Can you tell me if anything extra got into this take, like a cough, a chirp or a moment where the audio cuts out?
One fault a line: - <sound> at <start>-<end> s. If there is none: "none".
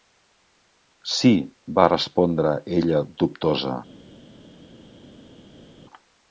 none